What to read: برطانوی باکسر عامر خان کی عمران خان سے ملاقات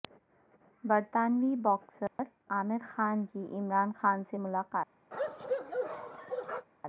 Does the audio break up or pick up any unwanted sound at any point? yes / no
yes